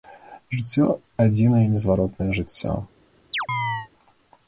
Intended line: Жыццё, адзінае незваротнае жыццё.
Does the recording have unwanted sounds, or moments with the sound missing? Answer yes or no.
yes